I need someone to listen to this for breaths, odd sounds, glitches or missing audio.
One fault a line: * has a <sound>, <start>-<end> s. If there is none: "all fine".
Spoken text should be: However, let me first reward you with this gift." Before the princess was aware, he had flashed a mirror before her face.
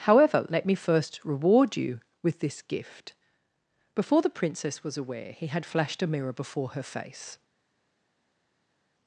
all fine